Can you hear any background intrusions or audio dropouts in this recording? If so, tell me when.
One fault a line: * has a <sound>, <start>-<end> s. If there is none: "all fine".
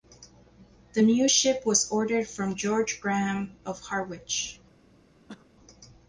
* has a cough, 5.3-5.5 s